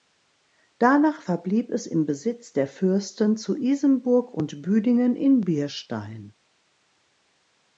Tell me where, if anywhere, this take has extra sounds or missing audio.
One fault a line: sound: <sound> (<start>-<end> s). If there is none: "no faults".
no faults